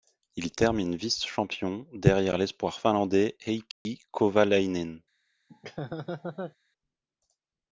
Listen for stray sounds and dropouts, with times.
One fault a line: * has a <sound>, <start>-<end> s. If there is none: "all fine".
* has a dropout, 3.7-3.9 s
* has a laugh, 5.5-6.6 s